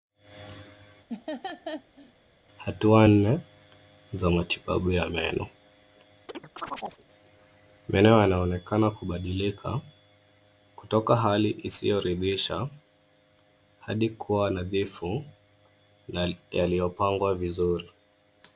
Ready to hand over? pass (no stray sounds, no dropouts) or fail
fail